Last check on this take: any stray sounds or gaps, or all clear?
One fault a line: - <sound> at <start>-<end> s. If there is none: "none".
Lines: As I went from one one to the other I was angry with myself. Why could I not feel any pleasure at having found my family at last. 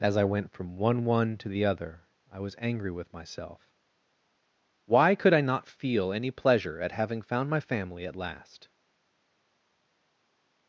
none